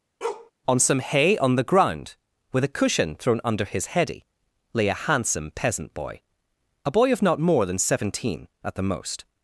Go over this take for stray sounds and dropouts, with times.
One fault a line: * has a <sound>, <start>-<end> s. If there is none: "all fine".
* has a bark, 0.2-0.5 s